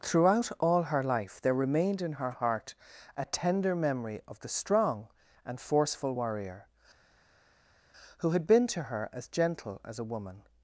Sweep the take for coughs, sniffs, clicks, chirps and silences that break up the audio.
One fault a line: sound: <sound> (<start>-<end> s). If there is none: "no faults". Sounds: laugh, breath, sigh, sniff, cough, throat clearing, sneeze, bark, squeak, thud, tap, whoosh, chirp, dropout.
no faults